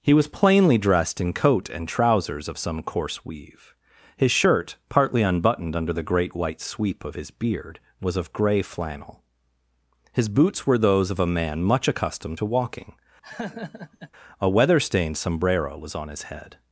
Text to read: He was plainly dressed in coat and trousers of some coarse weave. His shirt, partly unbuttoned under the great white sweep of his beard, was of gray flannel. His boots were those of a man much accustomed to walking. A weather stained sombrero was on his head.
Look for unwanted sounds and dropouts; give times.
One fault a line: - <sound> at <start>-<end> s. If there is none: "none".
- laugh at 13.2-14.1 s